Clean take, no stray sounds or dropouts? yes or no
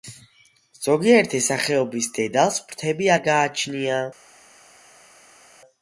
yes